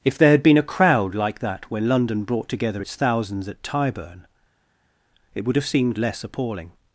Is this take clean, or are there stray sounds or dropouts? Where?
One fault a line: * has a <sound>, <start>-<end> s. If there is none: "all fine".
all fine